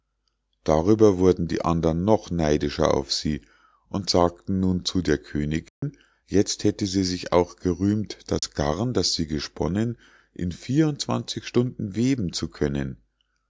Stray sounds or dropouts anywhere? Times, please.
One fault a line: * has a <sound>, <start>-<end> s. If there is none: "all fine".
* has a dropout, 5.7-5.8 s
* has a dropout, 8.4-8.4 s